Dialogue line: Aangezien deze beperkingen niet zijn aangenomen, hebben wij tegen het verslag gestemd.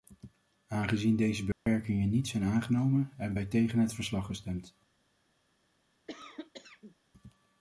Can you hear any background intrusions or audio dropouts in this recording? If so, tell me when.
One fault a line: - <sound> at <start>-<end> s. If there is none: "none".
- dropout at 1.5-1.7 s
- cough at 6.1-7.0 s